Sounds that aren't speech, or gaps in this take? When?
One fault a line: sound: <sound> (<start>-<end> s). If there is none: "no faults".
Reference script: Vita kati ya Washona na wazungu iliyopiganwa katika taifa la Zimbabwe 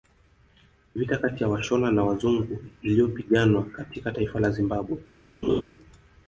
sound: laugh (5.4-5.6 s)